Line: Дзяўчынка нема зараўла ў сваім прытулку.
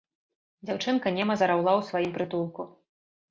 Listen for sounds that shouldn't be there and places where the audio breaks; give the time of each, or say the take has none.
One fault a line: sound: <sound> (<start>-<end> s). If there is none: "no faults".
no faults